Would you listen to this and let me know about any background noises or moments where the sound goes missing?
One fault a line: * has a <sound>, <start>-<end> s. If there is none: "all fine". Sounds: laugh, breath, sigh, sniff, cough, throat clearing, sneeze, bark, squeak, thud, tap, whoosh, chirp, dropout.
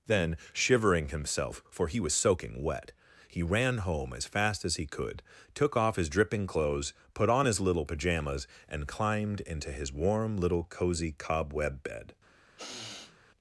* has a sniff, 12.6-13.2 s